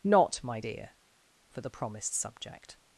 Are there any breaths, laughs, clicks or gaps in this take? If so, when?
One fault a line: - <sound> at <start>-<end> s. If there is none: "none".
none